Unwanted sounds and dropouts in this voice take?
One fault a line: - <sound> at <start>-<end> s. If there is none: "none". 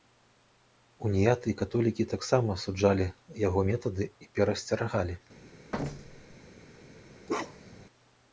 - thud at 5.7-6.4 s
- bark at 7.3-7.9 s